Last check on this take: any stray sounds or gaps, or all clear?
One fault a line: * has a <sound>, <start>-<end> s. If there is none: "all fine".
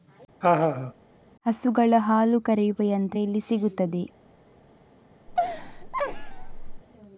* has a laugh, 0.4-0.9 s
* has a laugh, 5.3-6.8 s